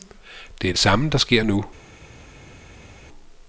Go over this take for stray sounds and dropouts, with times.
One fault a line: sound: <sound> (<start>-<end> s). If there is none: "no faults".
no faults